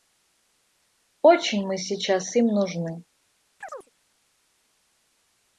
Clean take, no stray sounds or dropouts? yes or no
no